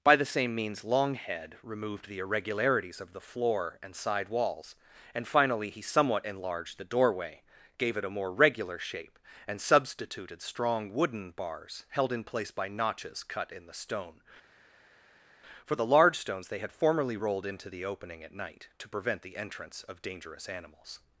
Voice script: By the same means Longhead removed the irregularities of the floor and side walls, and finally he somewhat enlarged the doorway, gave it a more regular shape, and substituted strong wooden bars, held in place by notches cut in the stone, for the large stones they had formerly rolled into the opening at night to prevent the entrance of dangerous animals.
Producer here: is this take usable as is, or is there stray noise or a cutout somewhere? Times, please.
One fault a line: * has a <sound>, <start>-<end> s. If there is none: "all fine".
all fine